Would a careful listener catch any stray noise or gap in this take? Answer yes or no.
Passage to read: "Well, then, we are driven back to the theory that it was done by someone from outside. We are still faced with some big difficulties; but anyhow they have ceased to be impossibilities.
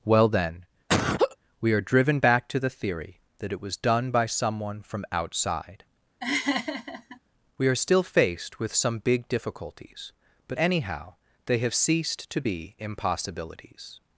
yes